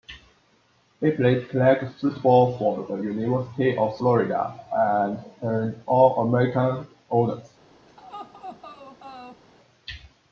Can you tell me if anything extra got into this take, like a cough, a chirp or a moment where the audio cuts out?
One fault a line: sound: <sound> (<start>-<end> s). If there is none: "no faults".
sound: laugh (7.9-9.4 s)